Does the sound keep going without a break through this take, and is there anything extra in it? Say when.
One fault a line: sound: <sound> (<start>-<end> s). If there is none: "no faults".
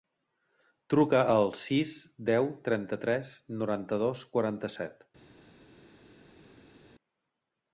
no faults